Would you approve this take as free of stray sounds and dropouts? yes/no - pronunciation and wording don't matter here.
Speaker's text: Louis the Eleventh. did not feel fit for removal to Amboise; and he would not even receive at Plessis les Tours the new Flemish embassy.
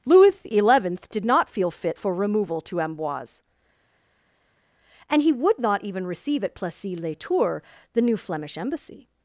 yes